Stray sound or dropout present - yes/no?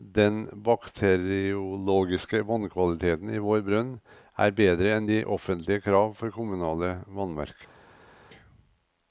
no